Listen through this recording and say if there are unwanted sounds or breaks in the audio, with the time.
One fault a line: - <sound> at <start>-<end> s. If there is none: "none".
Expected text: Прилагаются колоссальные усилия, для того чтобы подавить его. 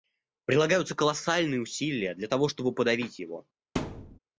- thud at 3.8-4.2 s